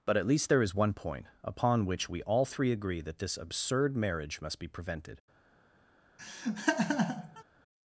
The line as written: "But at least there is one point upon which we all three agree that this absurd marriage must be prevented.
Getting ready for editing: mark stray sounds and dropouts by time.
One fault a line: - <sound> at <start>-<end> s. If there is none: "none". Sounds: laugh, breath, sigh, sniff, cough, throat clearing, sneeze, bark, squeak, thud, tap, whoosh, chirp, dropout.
- laugh at 6.2-7.4 s